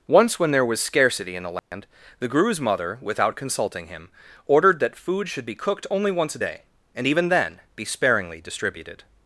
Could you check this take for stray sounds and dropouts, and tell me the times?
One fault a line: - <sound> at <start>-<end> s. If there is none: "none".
- dropout at 1.6-1.7 s